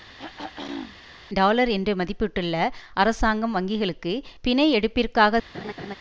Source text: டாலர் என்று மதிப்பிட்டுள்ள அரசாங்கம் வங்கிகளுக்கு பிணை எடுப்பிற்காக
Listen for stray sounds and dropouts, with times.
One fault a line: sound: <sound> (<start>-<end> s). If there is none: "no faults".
sound: throat clearing (0.2-1.0 s)
sound: laugh (5.5-6.0 s)